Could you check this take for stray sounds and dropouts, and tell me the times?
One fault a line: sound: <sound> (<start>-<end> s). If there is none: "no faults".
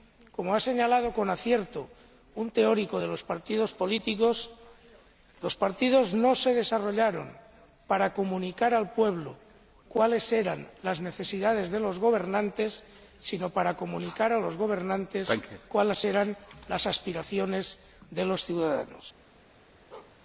sound: bark (19.9-20.2 s)